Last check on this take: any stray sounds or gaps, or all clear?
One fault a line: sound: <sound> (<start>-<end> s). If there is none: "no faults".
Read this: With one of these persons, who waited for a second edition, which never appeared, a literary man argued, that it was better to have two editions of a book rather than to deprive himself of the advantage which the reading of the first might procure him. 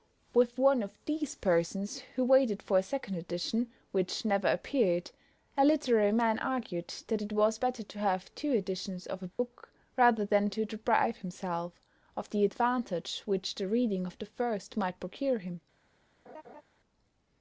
sound: dropout (9.3-9.4 s)
sound: laugh (16.3-16.6 s)